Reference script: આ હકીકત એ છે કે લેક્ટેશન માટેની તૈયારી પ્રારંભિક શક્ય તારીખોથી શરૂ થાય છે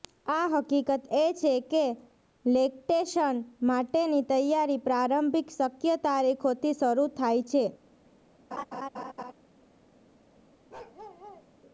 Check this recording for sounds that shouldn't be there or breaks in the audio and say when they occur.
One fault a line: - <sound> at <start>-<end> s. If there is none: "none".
- laugh at 8.5-9.3 s
- bark at 10.7-11.5 s